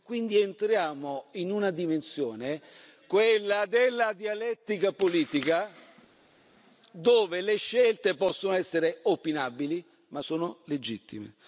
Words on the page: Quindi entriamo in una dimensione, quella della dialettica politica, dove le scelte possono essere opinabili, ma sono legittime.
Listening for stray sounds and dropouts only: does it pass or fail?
pass